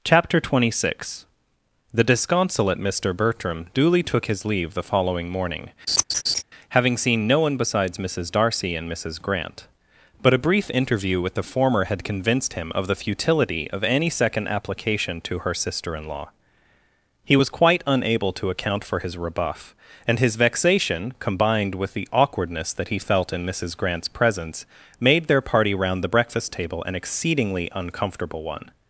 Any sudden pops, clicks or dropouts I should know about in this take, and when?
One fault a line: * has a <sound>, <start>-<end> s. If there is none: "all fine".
* has a laugh, 5.9-6.4 s